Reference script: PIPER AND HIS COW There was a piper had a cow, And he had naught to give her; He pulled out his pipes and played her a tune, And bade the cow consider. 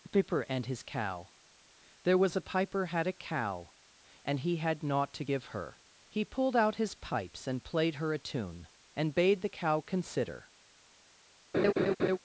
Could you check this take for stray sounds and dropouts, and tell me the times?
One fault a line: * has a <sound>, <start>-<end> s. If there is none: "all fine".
* has a laugh, 11.5-12.2 s